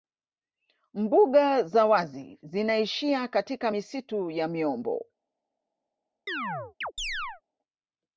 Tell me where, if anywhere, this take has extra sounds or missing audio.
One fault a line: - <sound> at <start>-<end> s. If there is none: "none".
- chirp at 6.3-7.4 s